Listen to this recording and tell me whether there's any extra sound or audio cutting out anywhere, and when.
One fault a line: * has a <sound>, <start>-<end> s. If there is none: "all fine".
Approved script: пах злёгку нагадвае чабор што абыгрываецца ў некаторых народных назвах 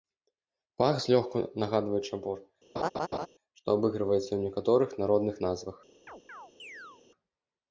* has a laugh, 2.8-3.3 s
* has a chirp, 6.1-7.0 s